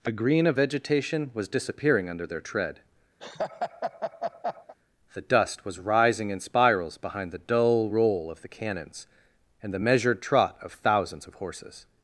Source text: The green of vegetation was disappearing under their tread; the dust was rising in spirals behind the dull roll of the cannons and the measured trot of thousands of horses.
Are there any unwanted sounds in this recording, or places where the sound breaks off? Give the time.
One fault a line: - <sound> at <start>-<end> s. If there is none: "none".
- laugh at 3.2-4.7 s